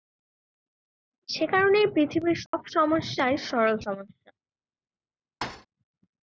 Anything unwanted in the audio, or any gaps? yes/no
yes